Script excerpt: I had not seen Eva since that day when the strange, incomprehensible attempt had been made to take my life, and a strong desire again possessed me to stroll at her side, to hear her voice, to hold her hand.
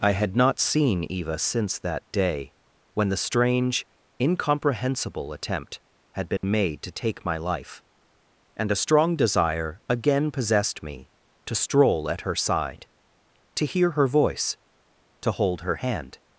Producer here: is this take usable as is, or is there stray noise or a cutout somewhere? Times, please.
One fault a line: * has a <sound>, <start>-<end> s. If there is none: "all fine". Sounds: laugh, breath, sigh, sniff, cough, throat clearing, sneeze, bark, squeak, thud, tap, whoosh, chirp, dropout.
* has a dropout, 6.4-6.4 s